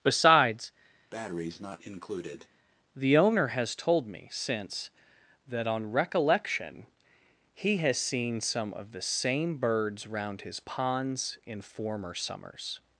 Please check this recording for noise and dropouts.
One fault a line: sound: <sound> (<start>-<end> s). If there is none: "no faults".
sound: breath (1.1-2.5 s)